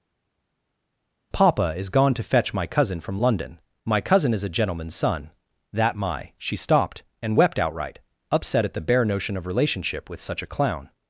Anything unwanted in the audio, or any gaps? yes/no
no